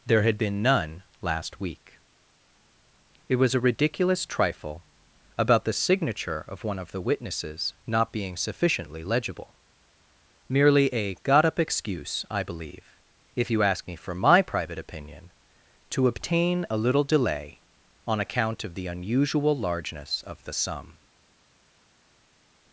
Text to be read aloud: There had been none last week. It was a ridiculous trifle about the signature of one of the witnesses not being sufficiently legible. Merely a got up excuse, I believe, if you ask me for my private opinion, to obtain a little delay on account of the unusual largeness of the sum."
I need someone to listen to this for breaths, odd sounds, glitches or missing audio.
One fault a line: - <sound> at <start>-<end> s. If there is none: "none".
none